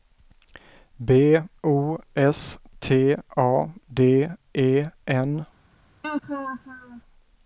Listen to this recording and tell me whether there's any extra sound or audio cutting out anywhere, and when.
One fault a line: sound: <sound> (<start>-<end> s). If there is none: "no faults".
sound: laugh (6.0-7.0 s)